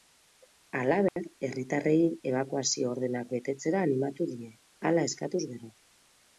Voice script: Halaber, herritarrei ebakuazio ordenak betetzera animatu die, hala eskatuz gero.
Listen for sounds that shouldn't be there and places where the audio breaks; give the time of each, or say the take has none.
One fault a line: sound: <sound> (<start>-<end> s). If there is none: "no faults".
sound: dropout (1.1-1.2 s)